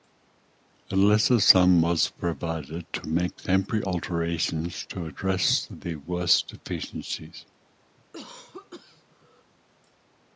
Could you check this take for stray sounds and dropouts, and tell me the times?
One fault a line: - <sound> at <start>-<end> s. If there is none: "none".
- cough at 8.0-9.5 s